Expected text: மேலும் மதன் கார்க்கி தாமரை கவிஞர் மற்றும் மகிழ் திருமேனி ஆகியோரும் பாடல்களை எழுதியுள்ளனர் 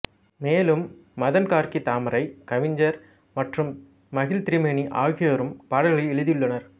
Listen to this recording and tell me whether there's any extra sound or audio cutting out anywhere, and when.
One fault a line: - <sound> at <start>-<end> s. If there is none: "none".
none